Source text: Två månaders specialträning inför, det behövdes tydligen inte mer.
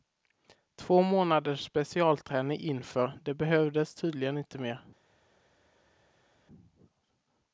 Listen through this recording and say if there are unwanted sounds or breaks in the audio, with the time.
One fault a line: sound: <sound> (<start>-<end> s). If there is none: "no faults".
no faults